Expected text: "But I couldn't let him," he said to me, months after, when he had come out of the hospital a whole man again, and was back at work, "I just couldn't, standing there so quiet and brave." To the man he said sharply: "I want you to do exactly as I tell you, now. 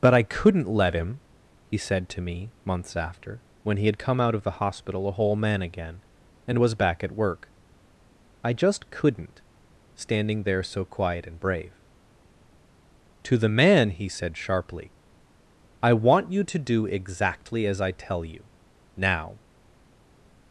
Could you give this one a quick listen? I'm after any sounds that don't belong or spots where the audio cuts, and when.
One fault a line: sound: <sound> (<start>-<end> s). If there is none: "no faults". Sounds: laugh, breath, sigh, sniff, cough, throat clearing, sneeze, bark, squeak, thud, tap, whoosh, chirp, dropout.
no faults